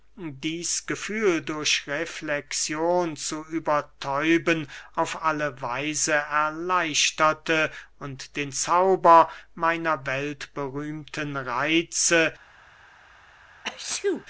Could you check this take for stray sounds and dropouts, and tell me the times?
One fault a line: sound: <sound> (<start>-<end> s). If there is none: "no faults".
sound: sneeze (13.6-14.2 s)